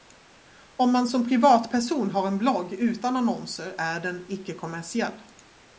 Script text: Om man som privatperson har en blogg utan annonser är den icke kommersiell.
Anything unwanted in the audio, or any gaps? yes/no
no